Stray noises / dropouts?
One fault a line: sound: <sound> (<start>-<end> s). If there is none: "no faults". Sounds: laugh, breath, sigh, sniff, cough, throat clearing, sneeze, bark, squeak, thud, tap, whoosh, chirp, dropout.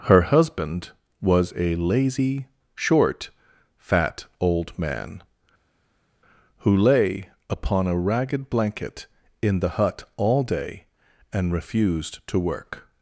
no faults